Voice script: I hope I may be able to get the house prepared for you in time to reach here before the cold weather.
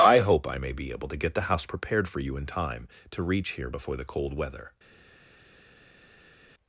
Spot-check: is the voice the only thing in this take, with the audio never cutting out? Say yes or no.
yes